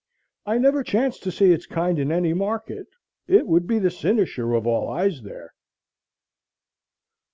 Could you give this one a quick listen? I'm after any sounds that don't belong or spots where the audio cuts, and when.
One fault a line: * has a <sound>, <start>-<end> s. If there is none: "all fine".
all fine